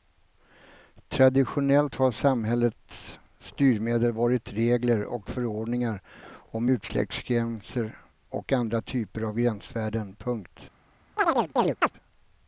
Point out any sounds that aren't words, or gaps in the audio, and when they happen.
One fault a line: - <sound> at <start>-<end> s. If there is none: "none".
- chirp at 11.2-11.9 s